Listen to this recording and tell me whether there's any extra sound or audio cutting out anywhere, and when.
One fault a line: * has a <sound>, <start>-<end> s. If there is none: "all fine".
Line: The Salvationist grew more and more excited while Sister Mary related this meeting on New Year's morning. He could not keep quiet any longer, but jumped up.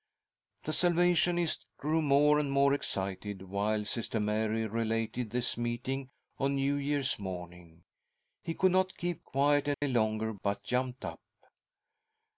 * has a dropout, 9.7-9.8 s